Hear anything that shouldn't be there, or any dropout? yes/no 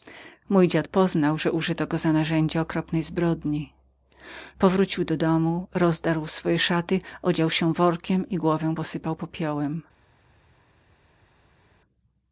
no